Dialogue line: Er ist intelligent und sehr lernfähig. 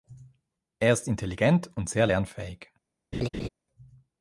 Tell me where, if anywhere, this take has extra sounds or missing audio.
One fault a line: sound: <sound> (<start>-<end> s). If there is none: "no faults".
sound: laugh (3.1-3.5 s)